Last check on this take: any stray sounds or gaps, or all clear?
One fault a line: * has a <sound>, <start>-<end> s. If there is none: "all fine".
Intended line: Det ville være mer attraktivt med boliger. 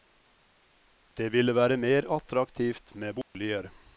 * has a dropout, 3.2-3.3 s